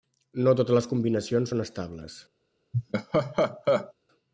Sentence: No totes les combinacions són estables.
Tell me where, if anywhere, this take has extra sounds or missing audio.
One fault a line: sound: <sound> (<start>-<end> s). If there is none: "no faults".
sound: laugh (2.7-3.9 s)